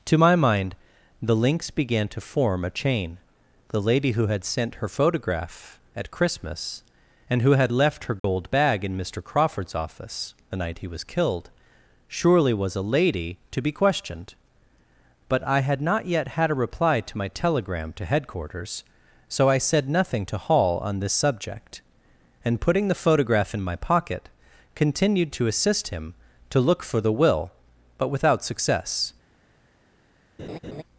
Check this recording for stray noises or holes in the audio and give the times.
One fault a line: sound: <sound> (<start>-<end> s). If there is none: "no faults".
sound: dropout (8.2-8.2 s)
sound: laugh (30.4-30.8 s)